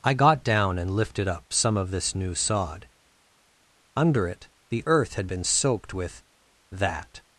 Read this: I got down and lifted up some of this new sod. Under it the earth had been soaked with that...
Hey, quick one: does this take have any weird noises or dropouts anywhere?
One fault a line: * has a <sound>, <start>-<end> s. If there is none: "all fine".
all fine